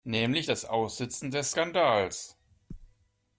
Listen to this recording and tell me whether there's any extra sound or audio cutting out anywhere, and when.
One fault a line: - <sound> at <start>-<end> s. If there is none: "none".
none